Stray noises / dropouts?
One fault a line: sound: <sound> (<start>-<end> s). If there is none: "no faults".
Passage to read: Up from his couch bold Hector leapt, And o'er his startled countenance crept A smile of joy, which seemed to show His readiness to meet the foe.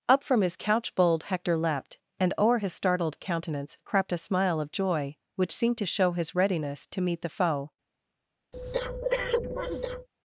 sound: breath (8.5-10.1 s)